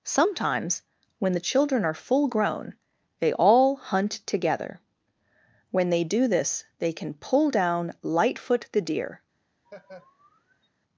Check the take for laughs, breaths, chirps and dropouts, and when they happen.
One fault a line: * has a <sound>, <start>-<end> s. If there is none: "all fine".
* has a laugh, 9.6-10.7 s